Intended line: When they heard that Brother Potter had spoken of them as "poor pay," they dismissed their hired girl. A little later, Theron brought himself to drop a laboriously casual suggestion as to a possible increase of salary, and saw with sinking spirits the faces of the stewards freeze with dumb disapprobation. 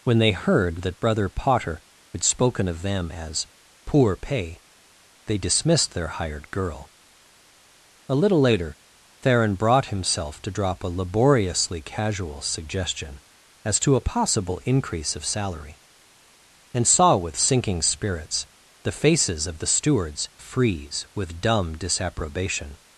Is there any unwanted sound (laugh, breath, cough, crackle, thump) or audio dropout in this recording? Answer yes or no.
no